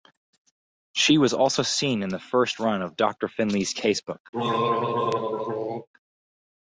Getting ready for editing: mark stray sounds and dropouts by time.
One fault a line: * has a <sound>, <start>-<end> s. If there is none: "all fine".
* has a throat clearing, 4.3-5.9 s